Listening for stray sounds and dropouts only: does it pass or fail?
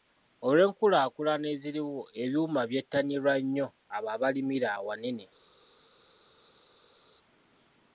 pass